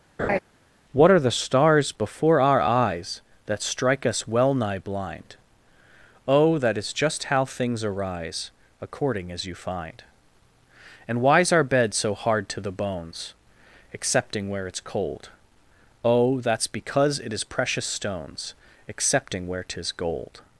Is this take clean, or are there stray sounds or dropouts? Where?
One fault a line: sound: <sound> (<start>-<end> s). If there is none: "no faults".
sound: laugh (0.2-0.4 s)